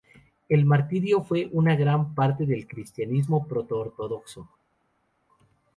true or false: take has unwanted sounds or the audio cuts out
false